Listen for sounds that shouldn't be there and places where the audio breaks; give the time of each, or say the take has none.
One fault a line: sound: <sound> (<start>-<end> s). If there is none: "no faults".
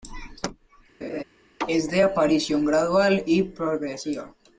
sound: laugh (1.0-1.2 s)